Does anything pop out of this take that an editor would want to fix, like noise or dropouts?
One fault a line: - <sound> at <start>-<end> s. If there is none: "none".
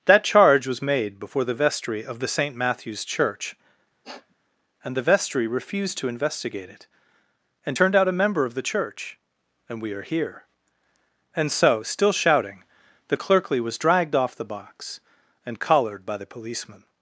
- sniff at 4.0-4.4 s